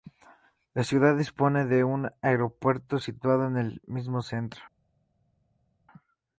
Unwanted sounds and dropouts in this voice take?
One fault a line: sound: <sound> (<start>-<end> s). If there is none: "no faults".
no faults